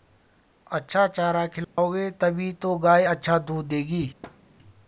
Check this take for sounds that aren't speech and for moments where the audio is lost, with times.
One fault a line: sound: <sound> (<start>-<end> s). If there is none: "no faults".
sound: dropout (1.6-1.8 s)
sound: thud (4.2-4.4 s)